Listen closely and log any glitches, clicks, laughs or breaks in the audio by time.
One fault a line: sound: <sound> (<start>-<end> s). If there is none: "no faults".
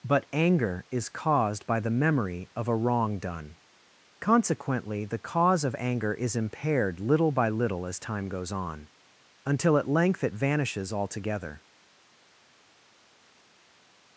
no faults